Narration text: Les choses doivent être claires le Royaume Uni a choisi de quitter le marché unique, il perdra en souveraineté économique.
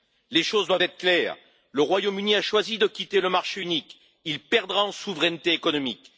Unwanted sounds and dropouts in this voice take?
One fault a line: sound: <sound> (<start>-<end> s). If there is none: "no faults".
no faults